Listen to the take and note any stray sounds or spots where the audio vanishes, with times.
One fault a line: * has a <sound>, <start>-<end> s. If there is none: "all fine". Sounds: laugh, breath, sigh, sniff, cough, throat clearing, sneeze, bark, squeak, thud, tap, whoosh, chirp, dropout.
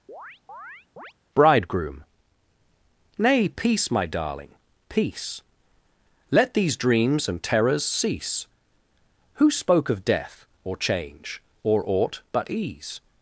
* has a chirp, 0.1-1.1 s